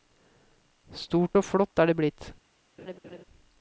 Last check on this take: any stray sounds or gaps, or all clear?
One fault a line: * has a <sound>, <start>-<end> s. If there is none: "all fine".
* has a laugh, 2.8-3.2 s